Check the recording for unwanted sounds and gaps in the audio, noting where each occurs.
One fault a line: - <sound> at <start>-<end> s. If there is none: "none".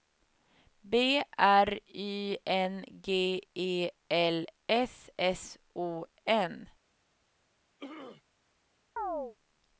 - throat clearing at 7.8-8.2 s
- chirp at 9.0-9.4 s